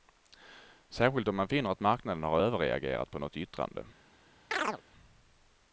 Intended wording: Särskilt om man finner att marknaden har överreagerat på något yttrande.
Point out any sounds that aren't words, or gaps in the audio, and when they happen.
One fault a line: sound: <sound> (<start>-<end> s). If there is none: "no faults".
sound: chirp (4.5-4.8 s)